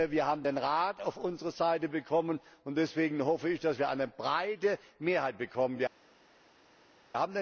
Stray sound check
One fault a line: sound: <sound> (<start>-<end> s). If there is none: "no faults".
no faults